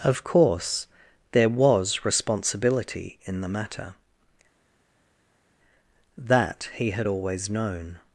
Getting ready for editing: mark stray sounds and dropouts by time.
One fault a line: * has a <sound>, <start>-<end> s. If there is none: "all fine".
all fine